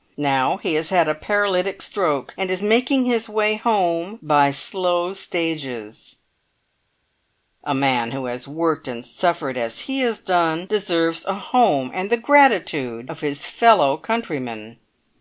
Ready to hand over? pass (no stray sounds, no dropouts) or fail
pass